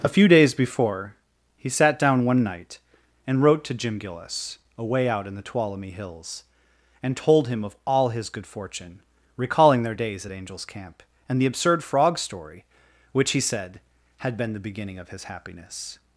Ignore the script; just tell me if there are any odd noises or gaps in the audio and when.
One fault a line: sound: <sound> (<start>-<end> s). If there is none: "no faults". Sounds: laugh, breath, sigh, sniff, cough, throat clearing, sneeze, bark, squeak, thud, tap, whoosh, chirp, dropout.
no faults